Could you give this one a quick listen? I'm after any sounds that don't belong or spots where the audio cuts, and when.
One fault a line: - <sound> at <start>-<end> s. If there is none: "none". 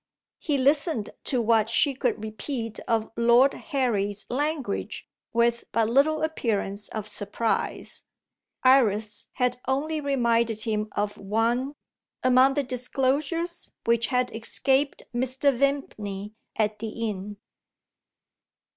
none